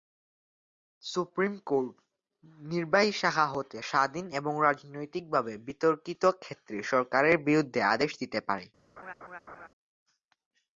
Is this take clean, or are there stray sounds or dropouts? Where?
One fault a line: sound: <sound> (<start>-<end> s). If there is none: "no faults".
sound: laugh (9.0-9.7 s)